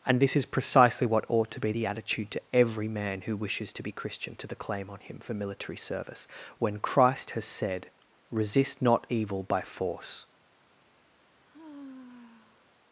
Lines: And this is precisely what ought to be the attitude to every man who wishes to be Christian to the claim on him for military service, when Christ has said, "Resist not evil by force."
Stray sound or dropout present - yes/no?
yes